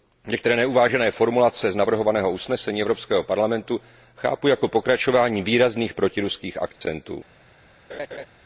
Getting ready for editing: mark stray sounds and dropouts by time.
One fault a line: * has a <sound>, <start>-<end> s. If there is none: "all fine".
* has a dropout, 6.8-6.8 s
* has a laugh, 7.9-8.3 s